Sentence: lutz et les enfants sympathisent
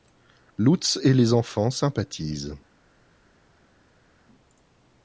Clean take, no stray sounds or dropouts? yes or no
yes